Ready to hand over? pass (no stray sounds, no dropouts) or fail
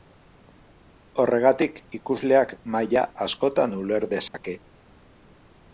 fail